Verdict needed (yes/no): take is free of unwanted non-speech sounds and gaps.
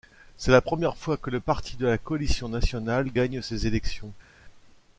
yes